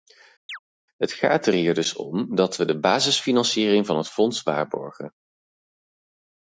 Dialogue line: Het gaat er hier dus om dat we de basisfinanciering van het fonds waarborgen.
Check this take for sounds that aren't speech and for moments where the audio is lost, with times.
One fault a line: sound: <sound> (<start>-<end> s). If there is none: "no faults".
sound: chirp (0.5-0.6 s)